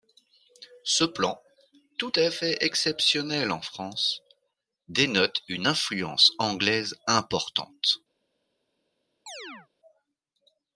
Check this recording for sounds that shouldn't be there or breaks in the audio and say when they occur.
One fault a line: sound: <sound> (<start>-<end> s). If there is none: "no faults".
sound: chirp (9.3-9.7 s)